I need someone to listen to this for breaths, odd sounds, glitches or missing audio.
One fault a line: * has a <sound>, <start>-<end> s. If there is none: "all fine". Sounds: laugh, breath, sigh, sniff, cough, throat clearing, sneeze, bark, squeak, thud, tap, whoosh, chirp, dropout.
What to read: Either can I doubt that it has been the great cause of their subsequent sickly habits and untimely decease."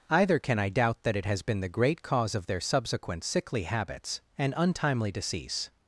all fine